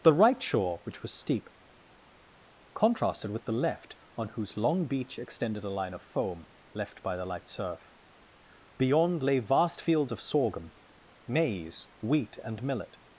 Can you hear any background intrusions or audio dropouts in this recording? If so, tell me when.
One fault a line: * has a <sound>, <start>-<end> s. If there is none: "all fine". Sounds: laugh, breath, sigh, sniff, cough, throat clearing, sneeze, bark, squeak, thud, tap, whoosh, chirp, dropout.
all fine